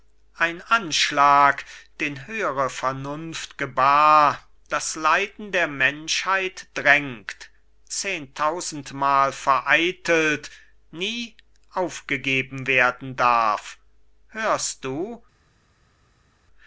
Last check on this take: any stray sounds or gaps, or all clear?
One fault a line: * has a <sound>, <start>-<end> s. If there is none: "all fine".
all fine